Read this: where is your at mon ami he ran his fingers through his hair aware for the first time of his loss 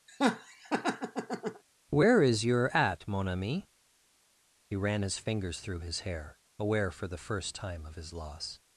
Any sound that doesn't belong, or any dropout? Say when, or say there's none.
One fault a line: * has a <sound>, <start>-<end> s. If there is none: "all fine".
* has a laugh, 0.1-1.6 s